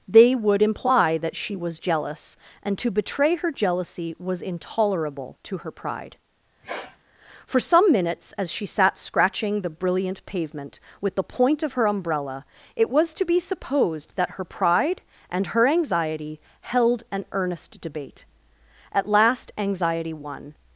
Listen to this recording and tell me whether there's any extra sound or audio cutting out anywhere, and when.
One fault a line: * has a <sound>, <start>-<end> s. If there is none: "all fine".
* has a sniff, 6.6-7.0 s